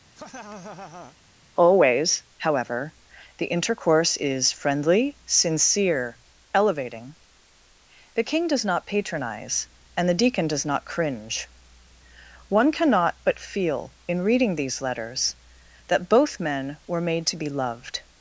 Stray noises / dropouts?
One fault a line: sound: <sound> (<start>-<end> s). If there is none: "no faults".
sound: laugh (0.2-1.2 s)